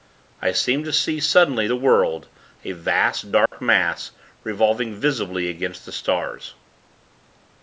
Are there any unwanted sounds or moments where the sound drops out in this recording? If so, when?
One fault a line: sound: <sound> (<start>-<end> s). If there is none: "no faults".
sound: dropout (3.5-3.5 s)